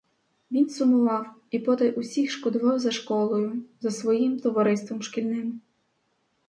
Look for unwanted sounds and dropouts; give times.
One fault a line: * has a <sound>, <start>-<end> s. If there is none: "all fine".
all fine